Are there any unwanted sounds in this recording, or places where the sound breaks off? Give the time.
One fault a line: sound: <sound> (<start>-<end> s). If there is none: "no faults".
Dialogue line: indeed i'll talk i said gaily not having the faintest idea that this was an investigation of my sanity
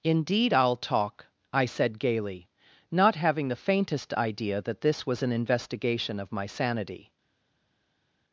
no faults